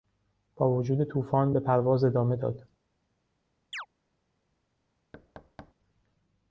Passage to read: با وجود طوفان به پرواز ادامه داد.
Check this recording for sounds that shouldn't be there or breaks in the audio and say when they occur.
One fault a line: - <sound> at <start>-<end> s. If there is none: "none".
- chirp at 3.7-3.9 s
- thud at 5.1-5.7 s